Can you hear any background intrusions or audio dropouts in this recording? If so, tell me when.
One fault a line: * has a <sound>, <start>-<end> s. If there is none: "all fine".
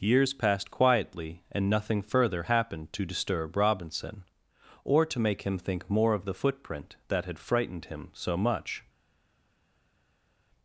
all fine